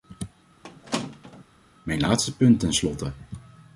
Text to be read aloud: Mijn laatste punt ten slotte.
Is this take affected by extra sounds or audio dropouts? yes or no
yes